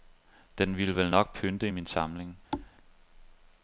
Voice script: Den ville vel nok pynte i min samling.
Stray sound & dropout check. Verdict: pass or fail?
fail